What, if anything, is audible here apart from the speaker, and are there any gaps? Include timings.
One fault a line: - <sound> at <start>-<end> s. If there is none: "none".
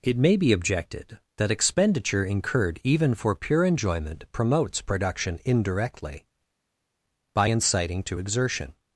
none